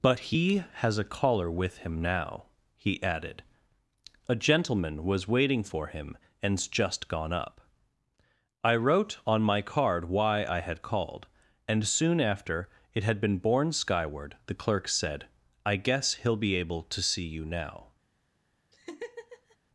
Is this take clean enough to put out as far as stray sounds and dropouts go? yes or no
no